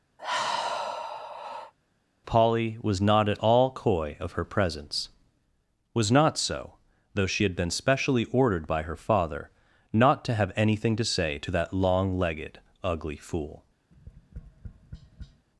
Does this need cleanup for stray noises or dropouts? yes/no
yes